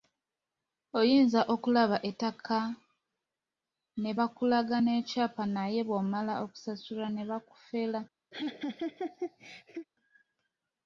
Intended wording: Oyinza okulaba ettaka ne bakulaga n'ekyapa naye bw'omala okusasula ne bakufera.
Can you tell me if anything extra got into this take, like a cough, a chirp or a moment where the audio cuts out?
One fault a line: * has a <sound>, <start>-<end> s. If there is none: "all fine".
* has a laugh, 8.3-9.9 s